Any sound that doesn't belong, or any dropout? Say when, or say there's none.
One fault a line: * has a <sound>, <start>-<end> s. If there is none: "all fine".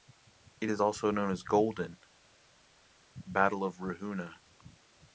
all fine